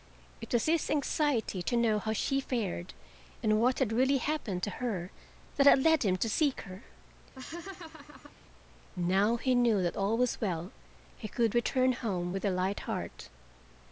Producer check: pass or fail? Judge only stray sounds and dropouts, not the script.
fail